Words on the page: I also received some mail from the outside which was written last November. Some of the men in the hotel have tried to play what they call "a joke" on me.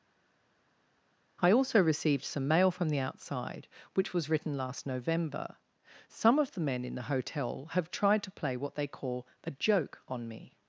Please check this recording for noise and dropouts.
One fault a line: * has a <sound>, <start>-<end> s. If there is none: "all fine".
all fine